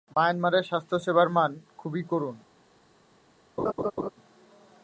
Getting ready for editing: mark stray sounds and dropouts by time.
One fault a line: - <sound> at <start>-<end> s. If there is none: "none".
- laugh at 3.6-4.1 s